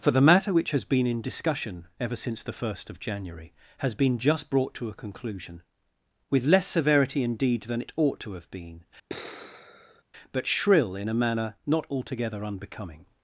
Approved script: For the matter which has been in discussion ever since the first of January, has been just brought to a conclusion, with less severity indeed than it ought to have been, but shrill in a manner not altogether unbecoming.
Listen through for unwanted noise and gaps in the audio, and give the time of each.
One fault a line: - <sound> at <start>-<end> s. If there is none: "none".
- sigh at 9.1-10.0 s